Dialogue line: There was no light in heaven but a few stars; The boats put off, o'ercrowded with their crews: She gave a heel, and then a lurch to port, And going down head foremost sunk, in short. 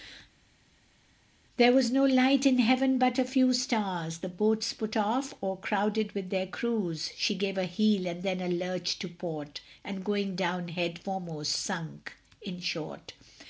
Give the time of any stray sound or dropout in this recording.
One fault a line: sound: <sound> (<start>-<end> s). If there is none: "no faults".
no faults